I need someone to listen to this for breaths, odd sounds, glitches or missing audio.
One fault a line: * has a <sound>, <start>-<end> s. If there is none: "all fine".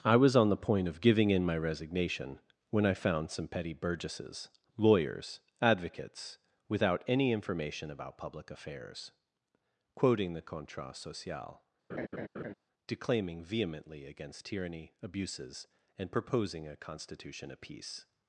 * has a laugh, 11.9-12.5 s